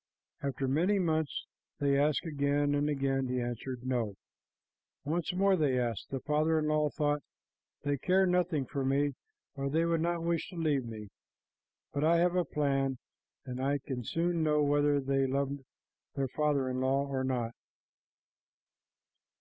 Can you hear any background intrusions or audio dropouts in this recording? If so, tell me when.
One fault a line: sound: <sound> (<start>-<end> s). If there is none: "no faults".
no faults